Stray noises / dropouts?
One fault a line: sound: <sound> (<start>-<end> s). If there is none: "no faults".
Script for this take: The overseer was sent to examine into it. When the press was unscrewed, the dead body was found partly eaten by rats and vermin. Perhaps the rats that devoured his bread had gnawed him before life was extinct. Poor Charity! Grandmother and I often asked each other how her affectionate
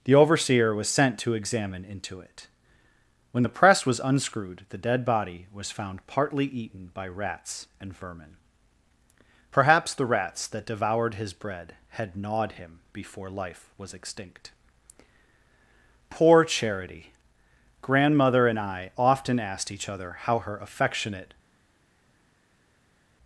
no faults